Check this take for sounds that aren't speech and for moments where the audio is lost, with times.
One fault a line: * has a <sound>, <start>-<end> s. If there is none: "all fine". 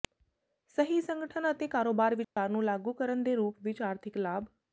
* has a dropout, 2.2-2.4 s